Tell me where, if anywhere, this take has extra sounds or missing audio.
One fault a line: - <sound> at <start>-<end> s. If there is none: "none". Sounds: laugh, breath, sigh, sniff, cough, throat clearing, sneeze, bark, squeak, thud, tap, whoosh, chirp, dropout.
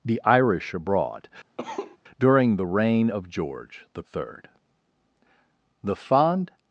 - cough at 1.6-2.0 s